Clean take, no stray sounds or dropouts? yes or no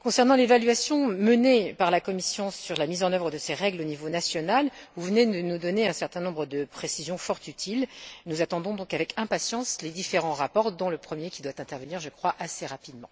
yes